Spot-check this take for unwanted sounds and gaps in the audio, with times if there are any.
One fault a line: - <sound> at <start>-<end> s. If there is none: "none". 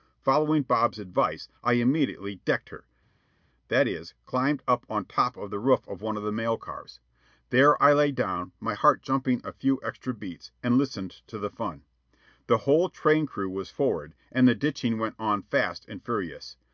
none